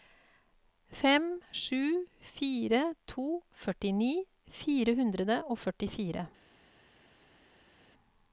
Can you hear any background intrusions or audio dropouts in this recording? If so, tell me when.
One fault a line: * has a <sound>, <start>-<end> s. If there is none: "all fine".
all fine